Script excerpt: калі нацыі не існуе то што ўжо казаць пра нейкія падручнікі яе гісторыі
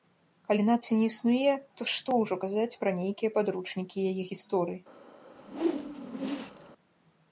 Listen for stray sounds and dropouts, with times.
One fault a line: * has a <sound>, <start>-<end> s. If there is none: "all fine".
* has a whoosh, 5.3-6.7 s